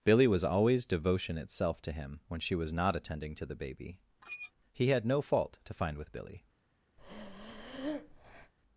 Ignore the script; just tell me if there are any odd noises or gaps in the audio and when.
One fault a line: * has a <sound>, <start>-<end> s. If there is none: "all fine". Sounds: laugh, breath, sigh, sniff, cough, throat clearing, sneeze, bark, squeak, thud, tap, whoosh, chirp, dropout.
* has a squeak, 4.2-4.5 s
* has a breath, 7.0-8.5 s